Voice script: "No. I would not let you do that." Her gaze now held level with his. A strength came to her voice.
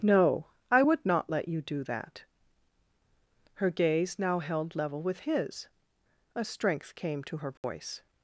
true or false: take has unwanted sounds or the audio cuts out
true